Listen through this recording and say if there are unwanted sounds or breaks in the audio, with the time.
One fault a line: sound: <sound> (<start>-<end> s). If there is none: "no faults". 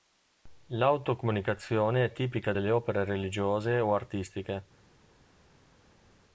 no faults